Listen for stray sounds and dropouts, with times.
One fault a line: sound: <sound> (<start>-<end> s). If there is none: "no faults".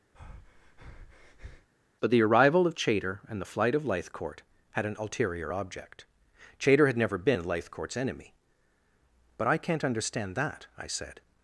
sound: breath (0.1-1.7 s)